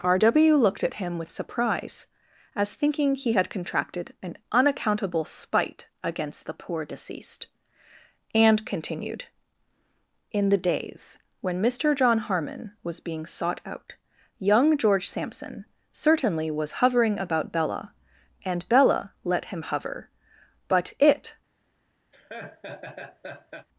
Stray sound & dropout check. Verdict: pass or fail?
fail